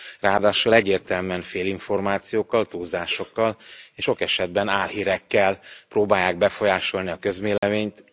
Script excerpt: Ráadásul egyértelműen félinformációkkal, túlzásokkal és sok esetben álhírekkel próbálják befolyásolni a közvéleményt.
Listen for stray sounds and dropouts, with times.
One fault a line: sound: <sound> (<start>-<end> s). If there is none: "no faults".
sound: dropout (7.6-7.6 s)